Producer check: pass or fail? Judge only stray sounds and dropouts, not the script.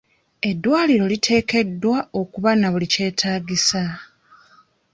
pass